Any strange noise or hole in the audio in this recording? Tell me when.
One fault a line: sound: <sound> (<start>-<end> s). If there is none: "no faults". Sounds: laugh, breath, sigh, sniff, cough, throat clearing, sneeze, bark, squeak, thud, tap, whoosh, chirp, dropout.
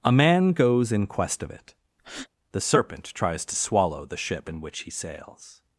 sound: breath (2.0-2.3 s)